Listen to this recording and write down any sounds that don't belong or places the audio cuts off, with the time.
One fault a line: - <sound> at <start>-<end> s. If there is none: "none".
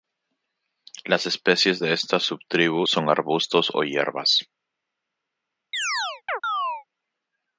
- chirp at 5.7-6.8 s